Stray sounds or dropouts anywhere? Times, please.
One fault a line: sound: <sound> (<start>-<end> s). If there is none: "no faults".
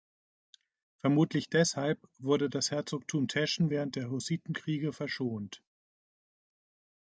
no faults